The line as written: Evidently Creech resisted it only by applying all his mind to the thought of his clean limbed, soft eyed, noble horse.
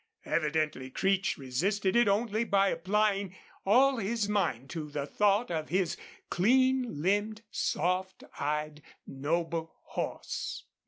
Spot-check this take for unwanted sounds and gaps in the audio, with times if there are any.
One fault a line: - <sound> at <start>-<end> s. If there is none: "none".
none